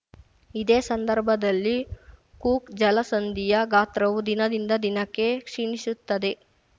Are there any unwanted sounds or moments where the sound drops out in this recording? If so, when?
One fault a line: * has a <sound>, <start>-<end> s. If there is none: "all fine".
all fine